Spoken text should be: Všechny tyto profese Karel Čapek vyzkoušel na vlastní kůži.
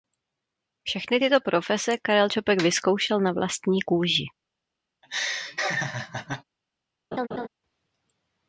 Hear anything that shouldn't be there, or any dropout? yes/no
yes